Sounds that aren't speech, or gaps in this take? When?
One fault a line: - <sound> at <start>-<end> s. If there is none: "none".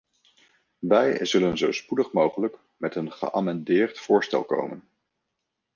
none